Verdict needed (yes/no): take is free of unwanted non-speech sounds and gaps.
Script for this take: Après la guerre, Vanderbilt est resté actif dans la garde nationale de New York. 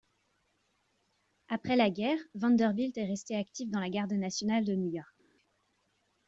yes